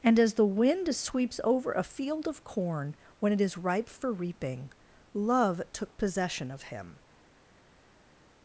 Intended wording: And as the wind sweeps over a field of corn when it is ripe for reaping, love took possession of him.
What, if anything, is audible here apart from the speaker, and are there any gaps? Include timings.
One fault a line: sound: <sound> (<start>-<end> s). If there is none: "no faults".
no faults